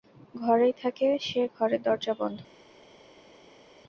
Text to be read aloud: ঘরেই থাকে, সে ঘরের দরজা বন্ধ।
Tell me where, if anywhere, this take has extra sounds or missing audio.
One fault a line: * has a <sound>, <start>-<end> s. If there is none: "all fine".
all fine